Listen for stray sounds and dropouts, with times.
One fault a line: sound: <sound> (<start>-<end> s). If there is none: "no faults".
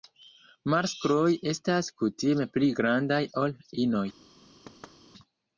sound: thud (4.7-5.0 s)